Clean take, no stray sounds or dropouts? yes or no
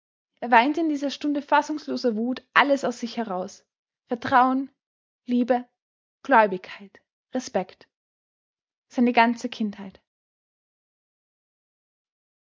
yes